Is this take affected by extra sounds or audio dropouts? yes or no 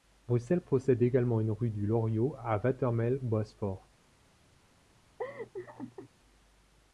yes